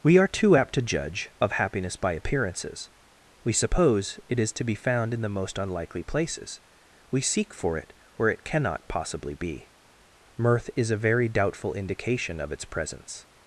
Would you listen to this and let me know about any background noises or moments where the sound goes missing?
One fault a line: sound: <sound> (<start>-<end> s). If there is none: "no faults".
no faults